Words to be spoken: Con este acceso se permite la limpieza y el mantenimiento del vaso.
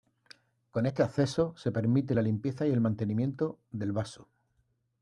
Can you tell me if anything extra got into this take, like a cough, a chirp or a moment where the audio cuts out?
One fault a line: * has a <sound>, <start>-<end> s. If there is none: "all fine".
all fine